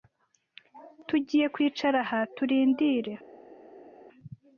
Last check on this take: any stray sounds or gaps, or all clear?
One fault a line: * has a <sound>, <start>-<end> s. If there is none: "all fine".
all fine